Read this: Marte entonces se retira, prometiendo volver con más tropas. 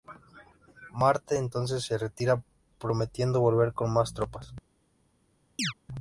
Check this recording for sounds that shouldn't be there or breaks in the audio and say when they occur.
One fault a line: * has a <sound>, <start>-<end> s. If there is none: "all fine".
* has a chirp, 5.6-5.7 s